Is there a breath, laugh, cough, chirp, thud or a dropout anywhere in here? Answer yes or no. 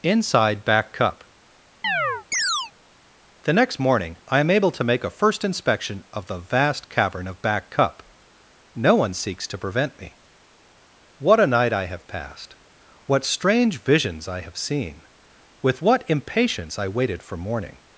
yes